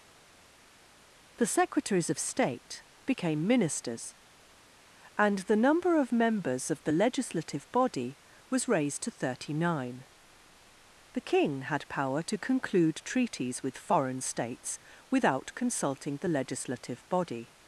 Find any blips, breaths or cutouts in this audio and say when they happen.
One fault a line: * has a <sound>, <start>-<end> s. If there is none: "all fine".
all fine